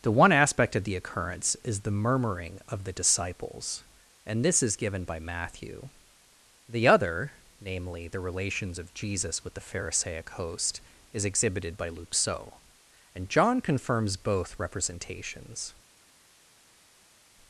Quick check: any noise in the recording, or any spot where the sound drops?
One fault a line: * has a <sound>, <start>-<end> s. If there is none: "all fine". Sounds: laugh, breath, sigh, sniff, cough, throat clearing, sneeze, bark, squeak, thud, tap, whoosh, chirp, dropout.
all fine